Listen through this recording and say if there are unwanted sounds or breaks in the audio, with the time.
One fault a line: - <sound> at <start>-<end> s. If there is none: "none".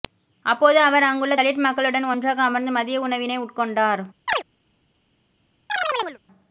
- chirp at 4.3-4.4 s
- chirp at 5.7-6.2 s